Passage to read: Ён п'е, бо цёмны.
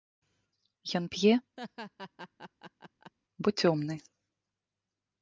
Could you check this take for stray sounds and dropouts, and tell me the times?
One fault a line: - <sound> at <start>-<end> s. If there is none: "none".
- laugh at 1.6-3.1 s